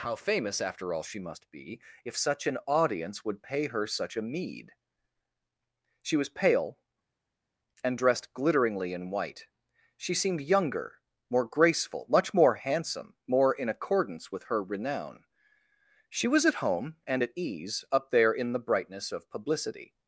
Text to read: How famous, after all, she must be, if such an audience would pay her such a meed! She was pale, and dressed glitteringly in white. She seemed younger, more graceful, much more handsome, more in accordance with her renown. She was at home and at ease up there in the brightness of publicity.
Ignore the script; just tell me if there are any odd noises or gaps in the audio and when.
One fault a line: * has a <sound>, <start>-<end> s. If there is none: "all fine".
all fine